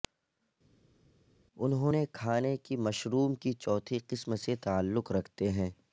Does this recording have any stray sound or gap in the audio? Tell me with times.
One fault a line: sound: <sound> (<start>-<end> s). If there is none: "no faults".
no faults